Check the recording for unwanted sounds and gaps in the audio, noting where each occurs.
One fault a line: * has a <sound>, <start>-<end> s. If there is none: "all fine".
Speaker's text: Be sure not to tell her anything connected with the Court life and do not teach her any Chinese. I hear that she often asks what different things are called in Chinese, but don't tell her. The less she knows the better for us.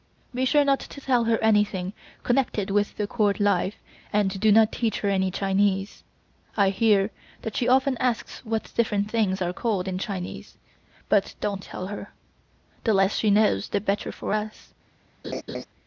* has a laugh, 15.2-15.7 s